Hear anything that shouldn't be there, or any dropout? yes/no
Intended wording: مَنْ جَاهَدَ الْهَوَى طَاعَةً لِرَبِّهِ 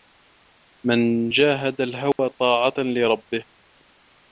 yes